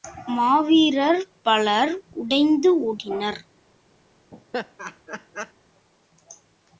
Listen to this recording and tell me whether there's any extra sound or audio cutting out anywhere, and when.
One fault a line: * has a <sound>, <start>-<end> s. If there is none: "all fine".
* has a laugh, 4.3-5.5 s